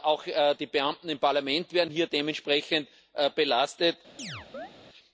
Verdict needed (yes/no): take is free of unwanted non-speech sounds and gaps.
no